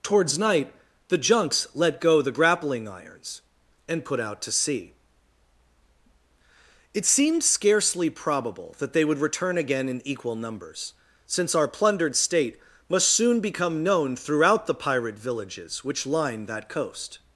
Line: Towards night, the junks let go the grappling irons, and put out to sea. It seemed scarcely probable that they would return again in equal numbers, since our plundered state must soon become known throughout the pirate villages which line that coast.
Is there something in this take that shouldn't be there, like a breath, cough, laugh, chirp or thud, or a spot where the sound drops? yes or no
no